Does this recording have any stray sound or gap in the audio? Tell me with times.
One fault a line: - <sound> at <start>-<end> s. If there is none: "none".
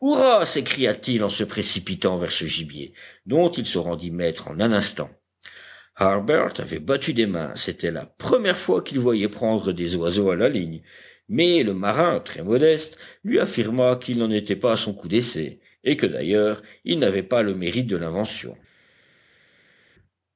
none